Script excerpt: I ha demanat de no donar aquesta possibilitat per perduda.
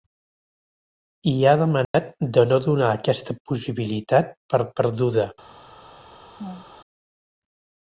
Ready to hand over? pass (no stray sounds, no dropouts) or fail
fail